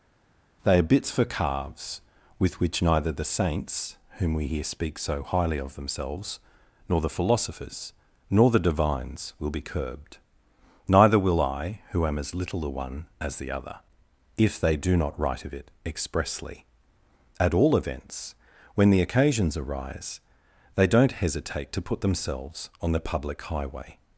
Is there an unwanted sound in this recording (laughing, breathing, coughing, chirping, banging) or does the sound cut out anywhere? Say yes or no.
no